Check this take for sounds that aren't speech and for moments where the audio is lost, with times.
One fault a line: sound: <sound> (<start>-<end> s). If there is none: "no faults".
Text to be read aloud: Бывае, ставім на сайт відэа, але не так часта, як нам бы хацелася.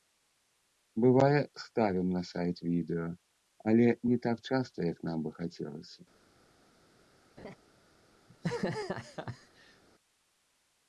sound: laugh (7.4-7.6 s)
sound: laugh (8.3-9.8 s)